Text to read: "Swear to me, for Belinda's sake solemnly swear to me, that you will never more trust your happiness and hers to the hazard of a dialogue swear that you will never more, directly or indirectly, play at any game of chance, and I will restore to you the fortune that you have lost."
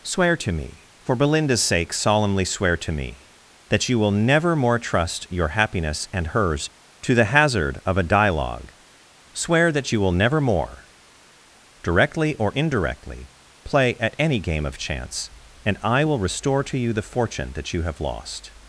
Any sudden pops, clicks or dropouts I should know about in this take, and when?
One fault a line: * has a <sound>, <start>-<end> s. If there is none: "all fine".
all fine